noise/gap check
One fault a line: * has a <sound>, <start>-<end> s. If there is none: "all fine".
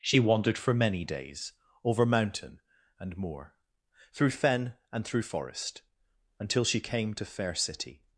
all fine